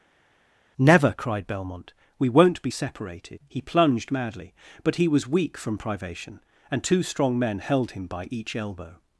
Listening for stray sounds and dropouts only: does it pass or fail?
pass